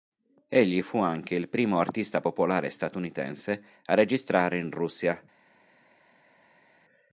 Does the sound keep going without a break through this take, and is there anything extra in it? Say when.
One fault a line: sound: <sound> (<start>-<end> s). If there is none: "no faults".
no faults